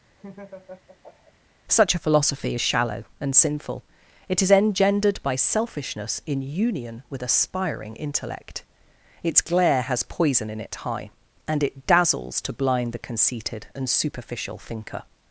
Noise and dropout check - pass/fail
fail